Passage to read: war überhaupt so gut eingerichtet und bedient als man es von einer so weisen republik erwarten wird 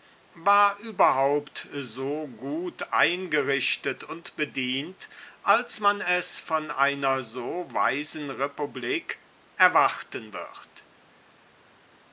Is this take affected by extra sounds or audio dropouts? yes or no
no